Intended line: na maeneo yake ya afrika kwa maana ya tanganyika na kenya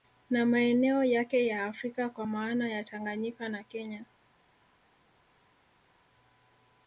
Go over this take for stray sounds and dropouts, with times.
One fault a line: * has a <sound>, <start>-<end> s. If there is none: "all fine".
all fine